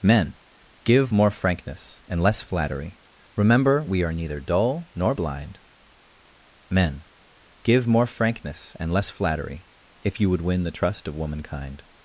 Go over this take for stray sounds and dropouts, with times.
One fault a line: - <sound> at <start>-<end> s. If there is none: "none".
none